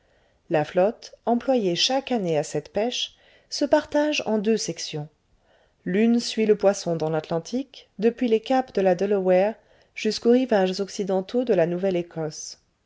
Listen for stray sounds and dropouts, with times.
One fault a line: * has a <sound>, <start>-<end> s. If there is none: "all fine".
all fine